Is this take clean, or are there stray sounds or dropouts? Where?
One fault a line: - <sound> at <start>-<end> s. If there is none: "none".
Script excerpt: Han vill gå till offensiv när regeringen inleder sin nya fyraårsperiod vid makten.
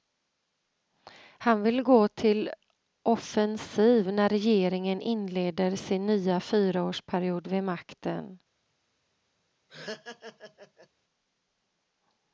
- laugh at 9.7-10.9 s